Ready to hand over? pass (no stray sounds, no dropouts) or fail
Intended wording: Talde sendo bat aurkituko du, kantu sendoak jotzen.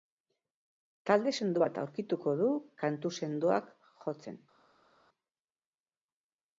pass